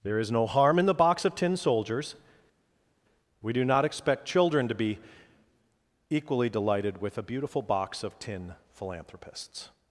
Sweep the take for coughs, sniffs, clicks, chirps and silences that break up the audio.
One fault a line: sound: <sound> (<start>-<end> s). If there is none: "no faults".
no faults